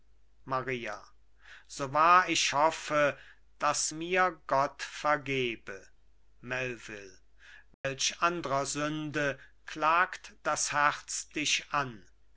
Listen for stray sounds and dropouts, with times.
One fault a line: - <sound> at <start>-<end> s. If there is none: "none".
- dropout at 7.7-7.8 s